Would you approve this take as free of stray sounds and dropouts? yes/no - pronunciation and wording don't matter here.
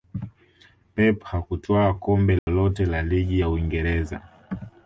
no